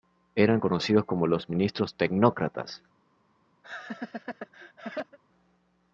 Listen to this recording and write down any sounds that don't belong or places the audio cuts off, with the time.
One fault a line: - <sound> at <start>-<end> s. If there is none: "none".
- laugh at 3.6-5.2 s